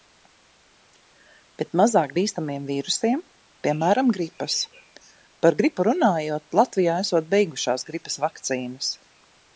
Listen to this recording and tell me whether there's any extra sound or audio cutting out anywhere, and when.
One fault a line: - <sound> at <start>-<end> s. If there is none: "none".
none